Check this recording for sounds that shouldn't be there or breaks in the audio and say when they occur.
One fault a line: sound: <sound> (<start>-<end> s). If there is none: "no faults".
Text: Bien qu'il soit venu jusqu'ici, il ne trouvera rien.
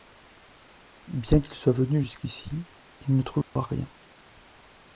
sound: dropout (3.4-3.6 s)